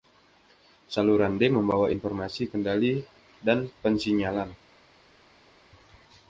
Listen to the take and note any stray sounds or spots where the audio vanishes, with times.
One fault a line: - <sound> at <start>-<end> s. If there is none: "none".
none